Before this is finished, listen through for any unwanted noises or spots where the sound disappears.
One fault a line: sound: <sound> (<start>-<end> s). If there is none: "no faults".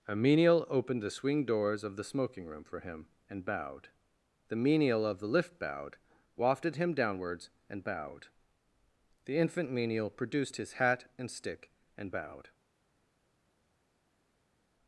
no faults